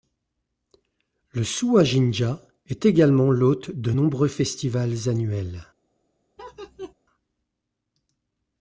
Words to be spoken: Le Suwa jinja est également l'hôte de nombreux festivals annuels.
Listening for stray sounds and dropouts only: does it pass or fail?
fail